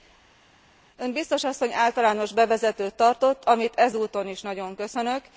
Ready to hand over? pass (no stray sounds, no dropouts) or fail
pass